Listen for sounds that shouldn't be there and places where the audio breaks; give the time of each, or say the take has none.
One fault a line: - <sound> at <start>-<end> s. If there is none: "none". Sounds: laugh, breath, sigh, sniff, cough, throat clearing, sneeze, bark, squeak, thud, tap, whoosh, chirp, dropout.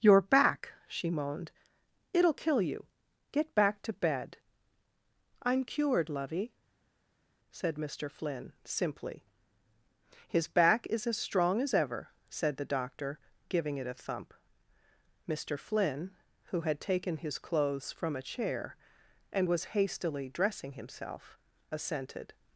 none